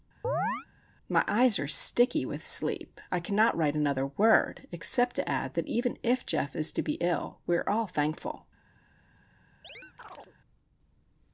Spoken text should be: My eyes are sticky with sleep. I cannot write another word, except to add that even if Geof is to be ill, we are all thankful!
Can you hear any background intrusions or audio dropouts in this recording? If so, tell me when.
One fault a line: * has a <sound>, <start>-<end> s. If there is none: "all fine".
* has a chirp, 0.2-0.7 s
* has a chirp, 9.6-10.4 s